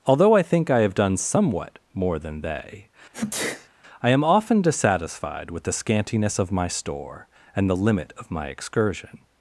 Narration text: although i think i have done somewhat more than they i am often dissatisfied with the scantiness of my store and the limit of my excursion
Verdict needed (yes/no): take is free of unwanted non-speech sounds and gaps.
no